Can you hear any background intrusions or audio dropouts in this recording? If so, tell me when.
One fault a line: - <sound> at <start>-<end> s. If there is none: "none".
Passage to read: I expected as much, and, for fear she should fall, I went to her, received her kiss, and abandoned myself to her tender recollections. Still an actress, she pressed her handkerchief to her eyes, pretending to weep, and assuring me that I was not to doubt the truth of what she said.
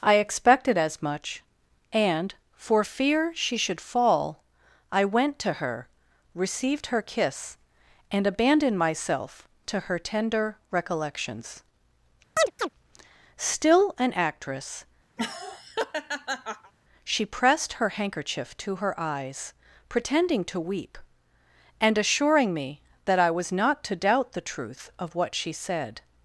- chirp at 12.4-12.7 s
- laugh at 15.2-16.7 s